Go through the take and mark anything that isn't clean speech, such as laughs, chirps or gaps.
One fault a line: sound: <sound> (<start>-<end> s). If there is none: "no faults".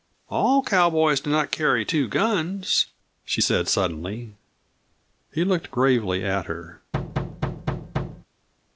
sound: thud (6.9-8.3 s)